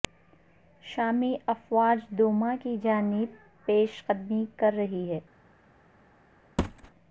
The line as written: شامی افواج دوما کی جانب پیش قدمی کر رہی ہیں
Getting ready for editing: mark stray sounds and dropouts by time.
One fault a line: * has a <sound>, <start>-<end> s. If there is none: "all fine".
* has a thud, 6.6-6.9 s